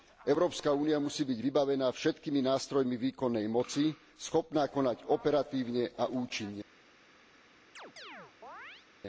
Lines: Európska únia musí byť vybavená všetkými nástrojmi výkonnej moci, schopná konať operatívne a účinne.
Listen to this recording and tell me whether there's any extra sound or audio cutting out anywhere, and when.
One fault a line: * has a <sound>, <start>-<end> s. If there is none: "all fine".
* has a chirp, 7.8-8.9 s